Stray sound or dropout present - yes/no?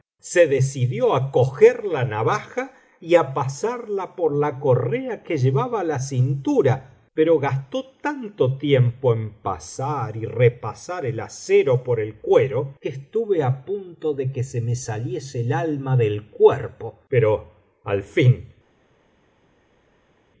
no